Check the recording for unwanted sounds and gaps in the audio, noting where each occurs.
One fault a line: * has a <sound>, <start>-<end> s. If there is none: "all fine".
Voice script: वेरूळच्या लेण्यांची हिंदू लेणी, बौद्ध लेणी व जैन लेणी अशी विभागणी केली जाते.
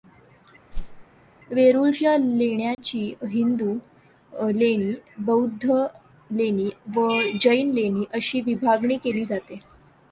* has a whoosh, 0.7-1.1 s
* has a dropout, 2.7-2.8 s